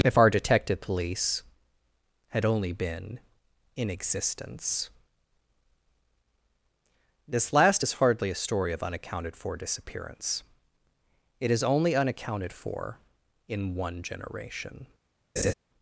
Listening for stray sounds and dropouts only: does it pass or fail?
fail